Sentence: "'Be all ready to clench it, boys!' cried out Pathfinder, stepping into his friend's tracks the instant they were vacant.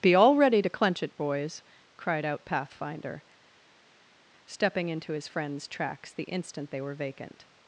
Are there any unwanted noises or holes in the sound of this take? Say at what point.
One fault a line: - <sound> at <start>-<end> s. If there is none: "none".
none